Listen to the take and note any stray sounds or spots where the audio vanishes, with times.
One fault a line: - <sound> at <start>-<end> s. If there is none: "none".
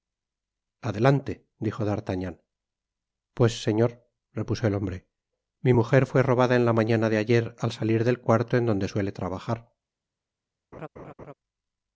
- laugh at 10.7-11.3 s